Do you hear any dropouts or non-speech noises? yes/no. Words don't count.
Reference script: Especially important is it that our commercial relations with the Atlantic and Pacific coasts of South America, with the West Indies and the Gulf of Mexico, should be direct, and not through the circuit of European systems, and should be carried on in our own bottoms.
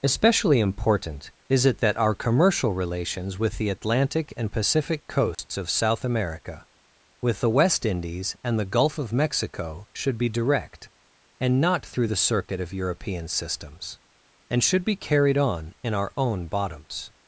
yes